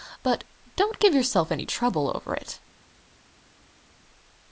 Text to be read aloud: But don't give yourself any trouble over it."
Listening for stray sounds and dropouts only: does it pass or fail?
pass